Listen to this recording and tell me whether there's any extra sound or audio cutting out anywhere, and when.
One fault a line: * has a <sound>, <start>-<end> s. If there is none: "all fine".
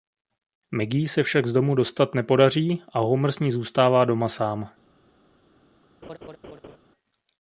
* has a laugh, 6.0-6.8 s